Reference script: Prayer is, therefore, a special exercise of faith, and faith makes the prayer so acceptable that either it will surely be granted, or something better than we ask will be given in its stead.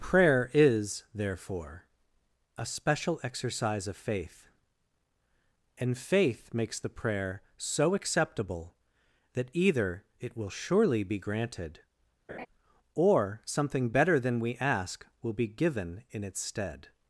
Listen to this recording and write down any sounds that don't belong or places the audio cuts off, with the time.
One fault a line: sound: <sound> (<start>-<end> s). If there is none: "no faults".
sound: laugh (12.3-12.5 s)